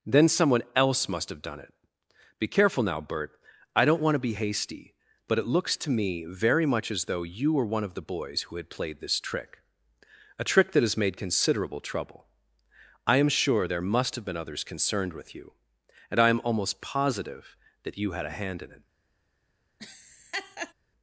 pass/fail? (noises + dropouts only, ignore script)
fail